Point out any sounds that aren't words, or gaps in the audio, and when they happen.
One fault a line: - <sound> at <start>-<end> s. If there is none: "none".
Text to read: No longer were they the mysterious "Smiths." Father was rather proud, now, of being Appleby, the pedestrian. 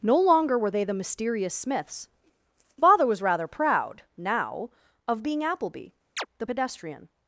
- chirp at 6.2-6.3 s